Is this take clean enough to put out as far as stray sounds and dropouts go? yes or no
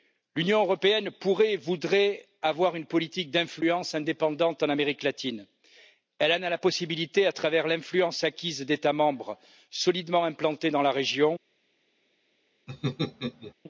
no